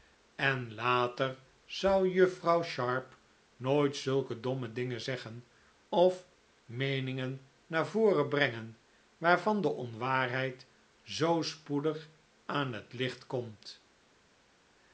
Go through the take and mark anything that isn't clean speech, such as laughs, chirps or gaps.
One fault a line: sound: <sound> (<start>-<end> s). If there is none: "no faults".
no faults